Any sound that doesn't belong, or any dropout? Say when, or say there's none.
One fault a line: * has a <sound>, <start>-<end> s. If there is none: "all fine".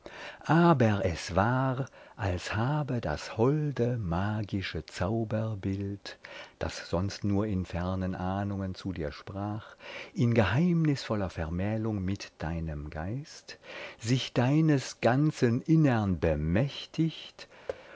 * has a thud, 17.7-17.8 s